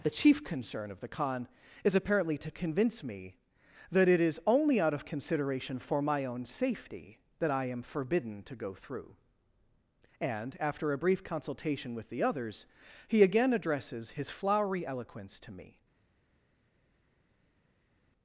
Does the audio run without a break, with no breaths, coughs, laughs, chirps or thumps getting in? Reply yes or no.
yes